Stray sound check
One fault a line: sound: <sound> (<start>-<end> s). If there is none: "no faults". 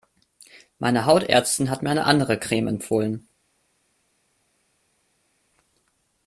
no faults